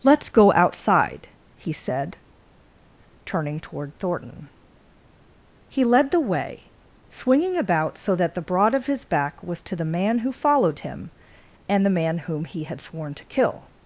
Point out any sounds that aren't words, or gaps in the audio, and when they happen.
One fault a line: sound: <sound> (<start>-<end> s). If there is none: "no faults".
no faults